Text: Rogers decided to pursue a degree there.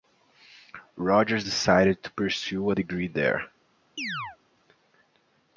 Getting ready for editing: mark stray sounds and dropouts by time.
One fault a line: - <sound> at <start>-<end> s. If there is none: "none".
- chirp at 4.0-4.4 s